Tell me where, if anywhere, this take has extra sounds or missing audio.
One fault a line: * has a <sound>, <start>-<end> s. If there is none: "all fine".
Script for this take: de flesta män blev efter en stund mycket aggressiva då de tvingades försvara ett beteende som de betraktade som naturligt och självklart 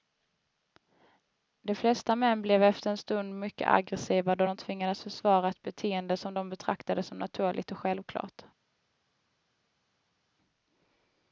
all fine